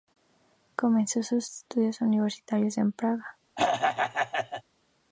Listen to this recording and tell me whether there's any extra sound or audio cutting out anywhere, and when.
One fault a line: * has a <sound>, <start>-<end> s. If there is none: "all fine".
* has a throat clearing, 3.6-4.6 s